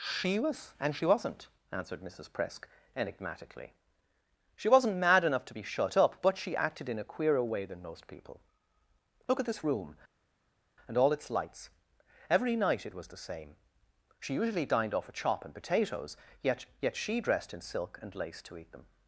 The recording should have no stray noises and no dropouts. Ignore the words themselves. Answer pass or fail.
pass